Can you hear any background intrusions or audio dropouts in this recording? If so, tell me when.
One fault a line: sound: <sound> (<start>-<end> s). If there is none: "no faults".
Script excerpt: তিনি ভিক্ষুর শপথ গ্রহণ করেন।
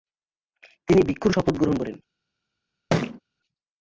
sound: thud (2.9-3.2 s)